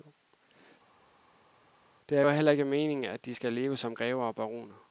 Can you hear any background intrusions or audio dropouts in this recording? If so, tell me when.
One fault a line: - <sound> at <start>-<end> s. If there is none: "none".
none